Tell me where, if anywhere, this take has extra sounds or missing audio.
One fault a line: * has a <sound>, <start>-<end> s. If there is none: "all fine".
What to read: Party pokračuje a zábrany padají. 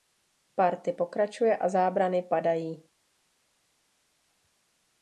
all fine